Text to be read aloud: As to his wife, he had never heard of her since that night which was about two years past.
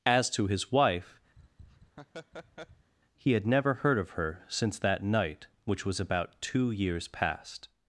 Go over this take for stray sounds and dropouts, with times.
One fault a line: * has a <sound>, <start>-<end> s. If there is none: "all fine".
* has a laugh, 1.4-2.9 s